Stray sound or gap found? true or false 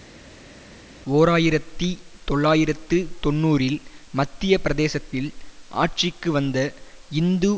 false